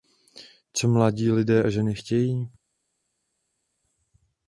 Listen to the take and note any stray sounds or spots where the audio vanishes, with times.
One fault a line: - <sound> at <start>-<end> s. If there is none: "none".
none